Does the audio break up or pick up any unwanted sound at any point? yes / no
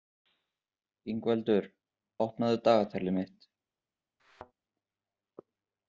yes